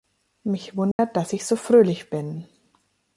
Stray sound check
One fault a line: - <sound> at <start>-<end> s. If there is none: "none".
- dropout at 0.9-1.0 s